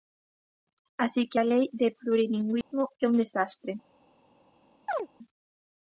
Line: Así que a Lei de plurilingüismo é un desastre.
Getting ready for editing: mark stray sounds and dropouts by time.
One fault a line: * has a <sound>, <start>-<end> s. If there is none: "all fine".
* has a dropout, 2.6-2.7 s
* has a chirp, 4.9-5.1 s